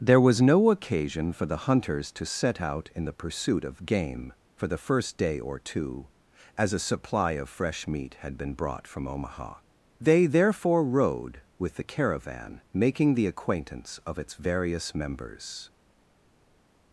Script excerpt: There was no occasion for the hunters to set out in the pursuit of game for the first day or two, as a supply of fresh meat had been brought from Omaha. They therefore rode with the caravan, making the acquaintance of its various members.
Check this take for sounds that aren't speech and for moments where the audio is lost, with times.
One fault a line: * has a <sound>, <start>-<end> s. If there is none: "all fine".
all fine